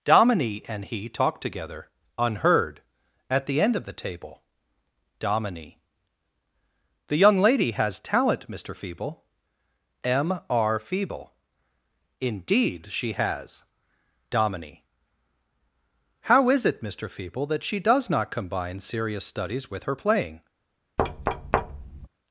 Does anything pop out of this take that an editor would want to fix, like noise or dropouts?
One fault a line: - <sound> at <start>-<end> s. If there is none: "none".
- thud at 21.0-22.1 s